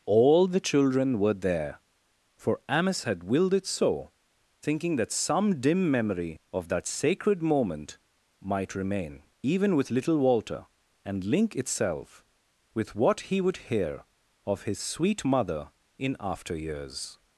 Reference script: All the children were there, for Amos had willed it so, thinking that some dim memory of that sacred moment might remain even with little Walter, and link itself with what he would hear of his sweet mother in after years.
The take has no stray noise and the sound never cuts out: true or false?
true